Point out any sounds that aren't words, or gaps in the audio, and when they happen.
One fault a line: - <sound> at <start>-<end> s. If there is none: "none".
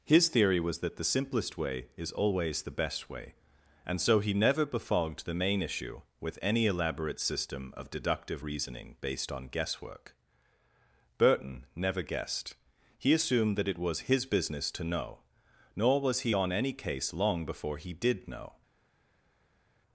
none